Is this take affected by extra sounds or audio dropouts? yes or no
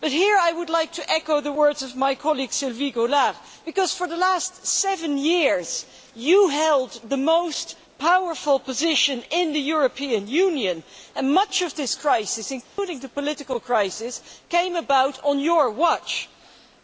yes